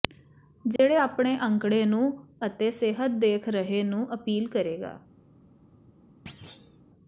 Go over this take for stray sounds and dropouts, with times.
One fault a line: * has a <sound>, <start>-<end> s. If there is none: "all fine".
* has a dropout, 0.8-0.8 s
* has a thud, 6.3-6.8 s